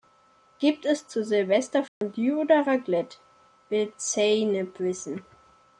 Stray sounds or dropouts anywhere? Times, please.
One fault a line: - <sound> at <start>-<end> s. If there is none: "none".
- dropout at 1.9-2.0 s